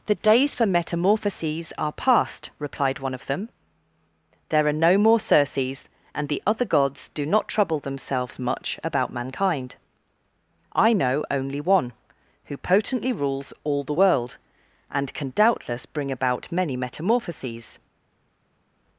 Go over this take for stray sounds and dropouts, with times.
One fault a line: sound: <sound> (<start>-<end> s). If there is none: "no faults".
no faults